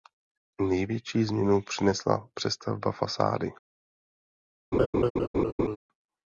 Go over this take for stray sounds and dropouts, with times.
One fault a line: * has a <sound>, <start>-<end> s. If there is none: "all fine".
* has a laugh, 4.7-5.8 s